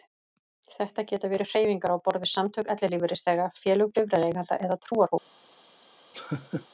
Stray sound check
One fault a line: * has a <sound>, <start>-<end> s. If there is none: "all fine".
* has a laugh, 6.1-6.7 s